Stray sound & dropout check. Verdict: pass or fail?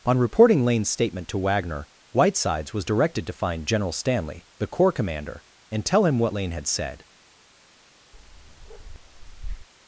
fail